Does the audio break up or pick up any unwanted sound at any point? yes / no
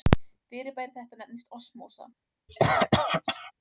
yes